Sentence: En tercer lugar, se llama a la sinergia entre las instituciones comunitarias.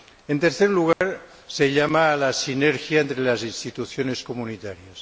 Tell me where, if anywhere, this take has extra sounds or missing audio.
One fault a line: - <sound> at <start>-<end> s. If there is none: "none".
- dropout at 0.9-1.0 s